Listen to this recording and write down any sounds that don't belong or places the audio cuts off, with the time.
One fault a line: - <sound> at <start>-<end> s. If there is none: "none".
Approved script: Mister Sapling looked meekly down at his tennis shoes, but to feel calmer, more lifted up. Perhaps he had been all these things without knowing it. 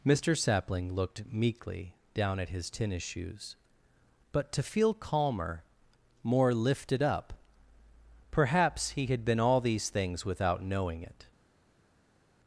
none